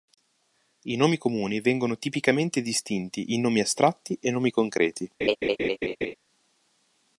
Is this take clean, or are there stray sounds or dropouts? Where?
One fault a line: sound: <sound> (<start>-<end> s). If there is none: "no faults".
sound: laugh (5.2-6.1 s)